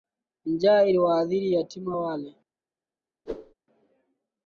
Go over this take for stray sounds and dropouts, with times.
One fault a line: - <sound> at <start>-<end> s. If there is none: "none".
- whoosh at 3.3-3.5 s